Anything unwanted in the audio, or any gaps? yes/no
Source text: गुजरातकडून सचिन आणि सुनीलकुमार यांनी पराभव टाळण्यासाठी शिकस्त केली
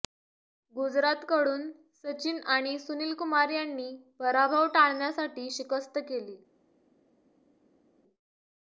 no